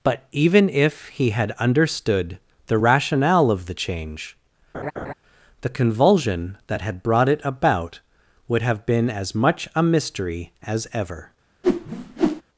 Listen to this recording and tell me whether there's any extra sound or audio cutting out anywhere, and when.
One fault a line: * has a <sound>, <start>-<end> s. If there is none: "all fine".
* has a laugh, 4.7-5.1 s
* has a whoosh, 11.6-12.4 s